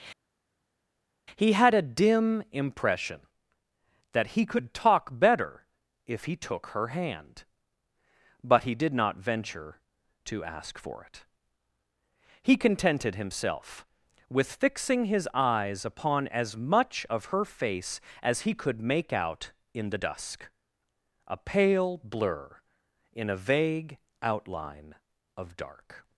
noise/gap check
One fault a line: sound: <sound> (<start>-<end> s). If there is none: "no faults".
no faults